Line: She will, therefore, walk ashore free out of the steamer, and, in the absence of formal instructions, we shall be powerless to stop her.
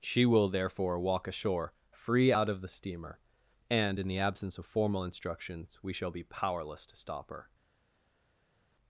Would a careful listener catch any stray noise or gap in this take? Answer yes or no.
no